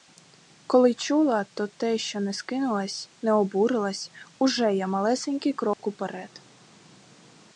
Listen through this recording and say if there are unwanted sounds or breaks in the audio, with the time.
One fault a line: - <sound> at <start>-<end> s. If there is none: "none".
- dropout at 5.7-5.8 s